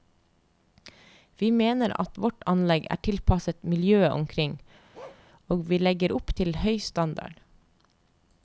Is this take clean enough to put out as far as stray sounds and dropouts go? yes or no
no